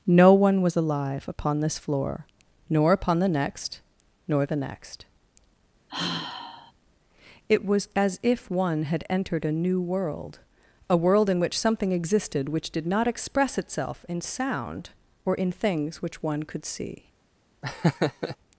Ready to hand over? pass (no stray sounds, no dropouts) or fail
fail